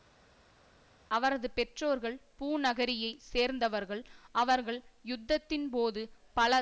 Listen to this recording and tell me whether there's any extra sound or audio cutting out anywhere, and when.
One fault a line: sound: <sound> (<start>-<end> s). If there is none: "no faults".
no faults